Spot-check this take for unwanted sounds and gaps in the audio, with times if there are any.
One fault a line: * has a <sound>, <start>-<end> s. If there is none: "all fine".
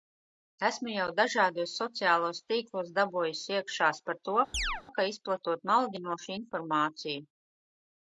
* has a chirp, 4.5-4.8 s